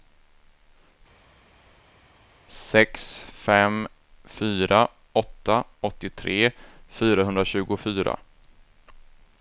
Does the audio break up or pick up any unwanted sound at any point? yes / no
no